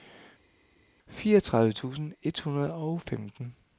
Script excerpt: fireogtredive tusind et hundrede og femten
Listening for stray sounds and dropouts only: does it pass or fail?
pass